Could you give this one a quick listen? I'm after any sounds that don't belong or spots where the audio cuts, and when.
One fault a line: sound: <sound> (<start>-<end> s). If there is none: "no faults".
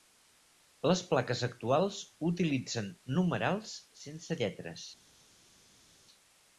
no faults